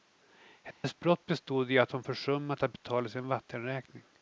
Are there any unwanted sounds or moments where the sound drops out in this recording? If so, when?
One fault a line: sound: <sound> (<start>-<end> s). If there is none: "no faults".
sound: dropout (0.7-0.8 s)